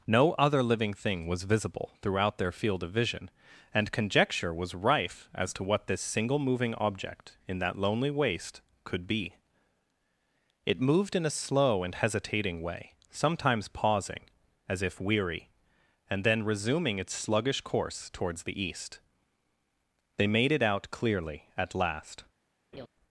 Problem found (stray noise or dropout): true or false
true